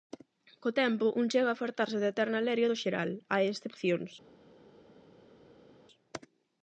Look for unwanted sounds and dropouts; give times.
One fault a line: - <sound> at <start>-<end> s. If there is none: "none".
none